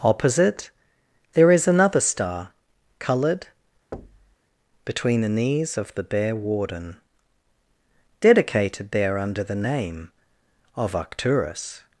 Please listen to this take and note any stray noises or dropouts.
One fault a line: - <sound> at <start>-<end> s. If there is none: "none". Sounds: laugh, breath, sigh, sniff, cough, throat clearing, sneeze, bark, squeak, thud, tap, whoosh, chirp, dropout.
- thud at 3.9-4.4 s